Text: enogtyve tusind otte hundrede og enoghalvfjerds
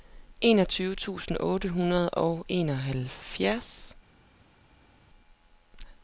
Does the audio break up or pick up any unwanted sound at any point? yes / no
no